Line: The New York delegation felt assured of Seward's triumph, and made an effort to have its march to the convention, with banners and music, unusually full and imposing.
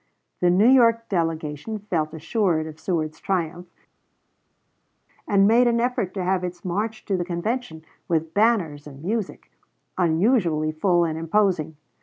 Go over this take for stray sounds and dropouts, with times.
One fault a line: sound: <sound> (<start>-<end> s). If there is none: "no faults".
no faults